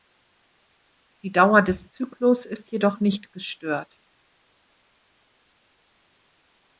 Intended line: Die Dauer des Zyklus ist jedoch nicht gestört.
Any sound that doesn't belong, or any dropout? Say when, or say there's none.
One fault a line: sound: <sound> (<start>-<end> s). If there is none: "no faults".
no faults